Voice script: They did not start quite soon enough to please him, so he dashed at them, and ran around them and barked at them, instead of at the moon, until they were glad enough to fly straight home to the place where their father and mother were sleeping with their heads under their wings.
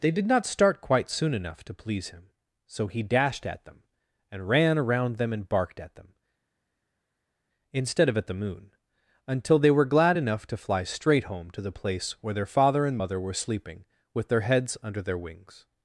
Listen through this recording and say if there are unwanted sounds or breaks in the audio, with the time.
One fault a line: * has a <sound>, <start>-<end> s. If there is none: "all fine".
all fine